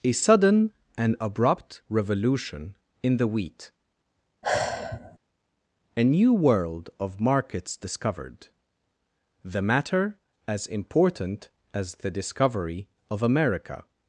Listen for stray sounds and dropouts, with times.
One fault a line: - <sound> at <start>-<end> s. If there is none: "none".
- sigh at 4.4-5.2 s